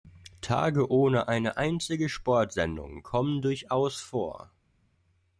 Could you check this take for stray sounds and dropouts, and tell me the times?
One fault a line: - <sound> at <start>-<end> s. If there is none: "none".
none